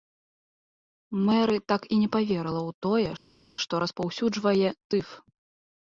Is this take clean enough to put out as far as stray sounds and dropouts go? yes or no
yes